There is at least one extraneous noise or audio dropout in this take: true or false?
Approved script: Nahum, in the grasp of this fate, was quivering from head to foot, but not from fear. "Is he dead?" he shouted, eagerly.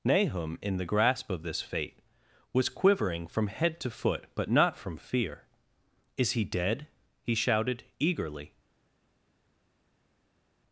false